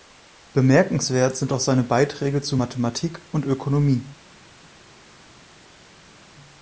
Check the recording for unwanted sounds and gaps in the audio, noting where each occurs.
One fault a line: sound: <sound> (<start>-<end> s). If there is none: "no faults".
no faults